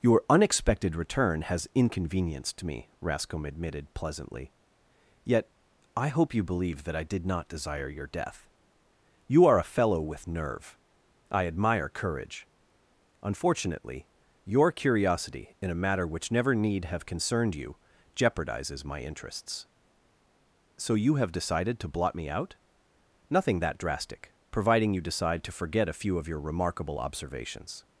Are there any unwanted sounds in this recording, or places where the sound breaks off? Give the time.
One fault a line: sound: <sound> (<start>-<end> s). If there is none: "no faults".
no faults